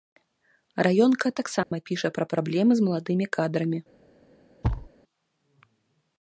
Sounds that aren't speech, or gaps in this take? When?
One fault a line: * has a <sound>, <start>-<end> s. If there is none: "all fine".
* has a dropout, 1.6-1.7 s
* has a thud, 4.6-4.9 s